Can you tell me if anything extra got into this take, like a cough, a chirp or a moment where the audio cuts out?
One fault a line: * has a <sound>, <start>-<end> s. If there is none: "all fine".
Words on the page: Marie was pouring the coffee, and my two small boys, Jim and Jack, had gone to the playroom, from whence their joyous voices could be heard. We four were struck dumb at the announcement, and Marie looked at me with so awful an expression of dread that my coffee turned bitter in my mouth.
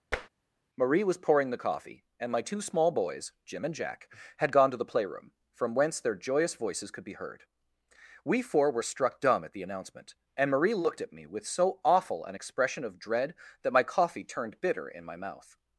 * has a tap, 0.1-0.3 s